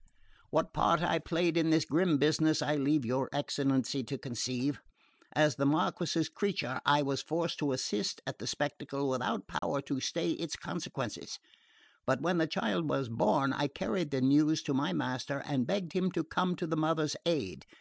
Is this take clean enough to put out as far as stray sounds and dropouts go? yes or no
no